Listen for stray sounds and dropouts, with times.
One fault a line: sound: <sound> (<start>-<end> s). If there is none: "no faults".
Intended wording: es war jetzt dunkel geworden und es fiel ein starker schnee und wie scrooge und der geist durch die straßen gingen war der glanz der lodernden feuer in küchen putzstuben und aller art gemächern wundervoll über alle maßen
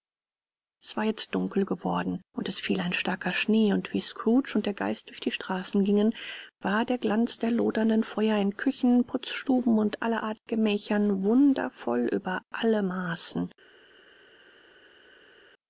no faults